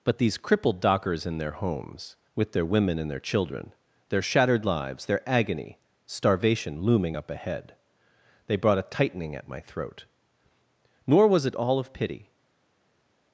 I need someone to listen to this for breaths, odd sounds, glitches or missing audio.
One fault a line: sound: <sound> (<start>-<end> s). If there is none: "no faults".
no faults